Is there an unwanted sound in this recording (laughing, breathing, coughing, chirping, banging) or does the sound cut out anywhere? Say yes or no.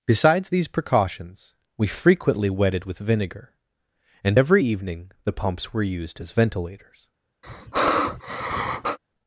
yes